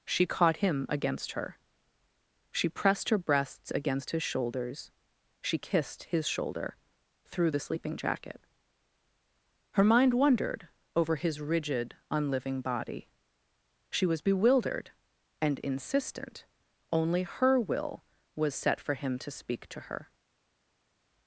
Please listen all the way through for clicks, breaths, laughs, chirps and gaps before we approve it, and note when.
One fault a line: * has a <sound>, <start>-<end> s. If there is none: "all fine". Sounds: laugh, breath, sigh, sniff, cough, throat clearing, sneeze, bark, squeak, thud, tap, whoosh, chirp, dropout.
all fine